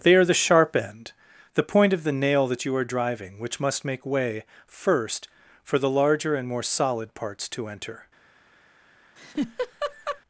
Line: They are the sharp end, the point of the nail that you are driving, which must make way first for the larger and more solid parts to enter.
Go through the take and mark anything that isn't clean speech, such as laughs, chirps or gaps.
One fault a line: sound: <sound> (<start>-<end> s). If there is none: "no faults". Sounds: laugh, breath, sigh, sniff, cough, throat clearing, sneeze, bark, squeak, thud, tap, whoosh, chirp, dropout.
sound: laugh (9.2-10.2 s)